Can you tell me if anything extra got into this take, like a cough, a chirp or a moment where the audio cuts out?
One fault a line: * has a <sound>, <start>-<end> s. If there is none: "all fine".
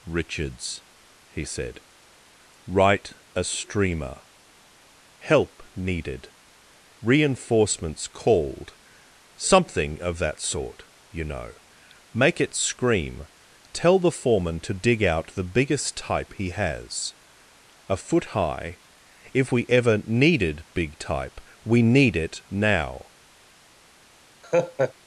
* has a laugh, 24.4-24.9 s